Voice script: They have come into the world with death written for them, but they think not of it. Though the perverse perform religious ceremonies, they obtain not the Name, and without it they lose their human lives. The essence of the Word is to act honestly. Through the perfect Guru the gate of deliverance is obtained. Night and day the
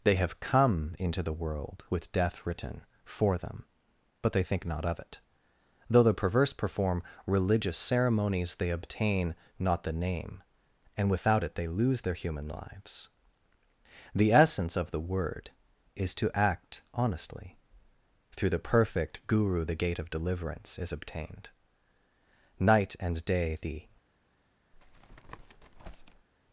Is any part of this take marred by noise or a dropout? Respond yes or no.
yes